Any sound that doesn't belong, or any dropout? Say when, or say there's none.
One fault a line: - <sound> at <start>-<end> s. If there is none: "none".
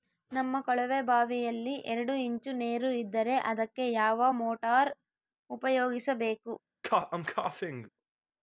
- cough at 6.8-7.9 s